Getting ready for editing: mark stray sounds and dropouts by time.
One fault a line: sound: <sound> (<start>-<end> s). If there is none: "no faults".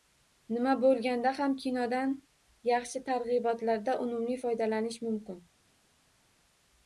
no faults